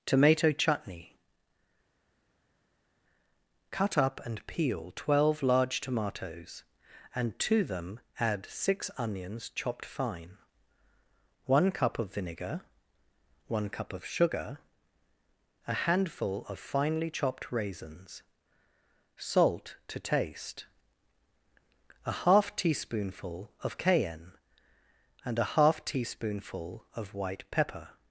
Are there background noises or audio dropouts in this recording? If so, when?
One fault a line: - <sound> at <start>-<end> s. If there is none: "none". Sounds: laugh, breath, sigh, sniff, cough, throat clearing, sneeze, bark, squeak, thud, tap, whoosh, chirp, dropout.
none